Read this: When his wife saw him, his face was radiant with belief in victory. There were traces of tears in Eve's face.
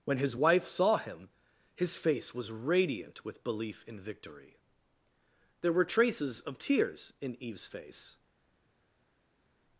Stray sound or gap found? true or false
false